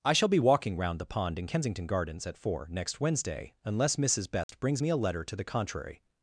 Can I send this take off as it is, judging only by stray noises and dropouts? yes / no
no